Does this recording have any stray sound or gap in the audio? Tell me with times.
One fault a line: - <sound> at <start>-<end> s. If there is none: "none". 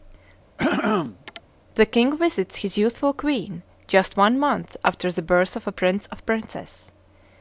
- throat clearing at 0.6-1.4 s